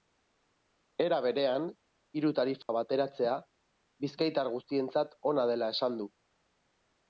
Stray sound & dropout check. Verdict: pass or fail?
fail